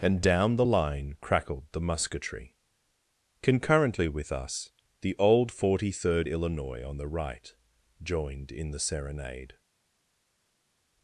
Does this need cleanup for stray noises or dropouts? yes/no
no